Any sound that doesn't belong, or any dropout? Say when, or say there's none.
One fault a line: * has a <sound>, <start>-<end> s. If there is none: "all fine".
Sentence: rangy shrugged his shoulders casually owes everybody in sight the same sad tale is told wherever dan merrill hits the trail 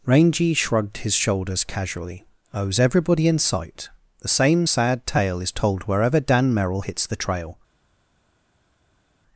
all fine